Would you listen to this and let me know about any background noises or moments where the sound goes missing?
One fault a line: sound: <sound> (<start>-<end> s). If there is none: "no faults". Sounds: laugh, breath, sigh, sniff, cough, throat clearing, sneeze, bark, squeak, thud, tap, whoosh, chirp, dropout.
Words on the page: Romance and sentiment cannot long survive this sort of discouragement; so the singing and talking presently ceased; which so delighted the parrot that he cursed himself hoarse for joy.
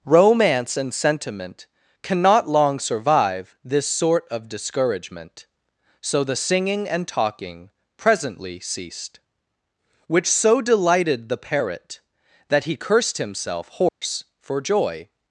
sound: dropout (13.9-14.0 s)